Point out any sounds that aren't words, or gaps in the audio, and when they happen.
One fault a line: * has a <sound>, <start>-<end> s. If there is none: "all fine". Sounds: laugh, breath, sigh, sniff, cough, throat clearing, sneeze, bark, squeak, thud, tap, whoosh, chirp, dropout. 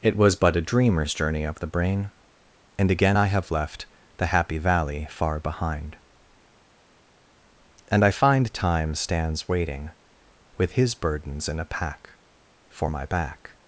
all fine